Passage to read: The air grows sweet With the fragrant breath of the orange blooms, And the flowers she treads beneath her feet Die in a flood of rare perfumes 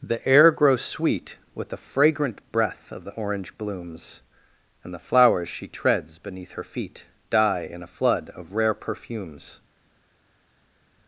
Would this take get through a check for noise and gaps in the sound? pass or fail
pass